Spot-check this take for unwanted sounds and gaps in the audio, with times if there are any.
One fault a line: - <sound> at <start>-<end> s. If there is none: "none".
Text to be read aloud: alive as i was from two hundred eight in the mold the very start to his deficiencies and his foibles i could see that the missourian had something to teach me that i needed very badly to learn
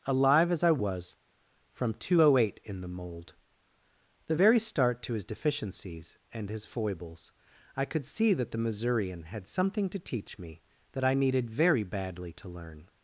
none